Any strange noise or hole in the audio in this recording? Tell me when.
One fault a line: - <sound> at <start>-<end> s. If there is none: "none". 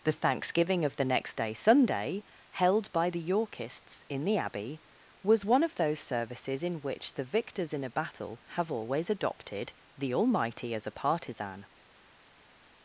none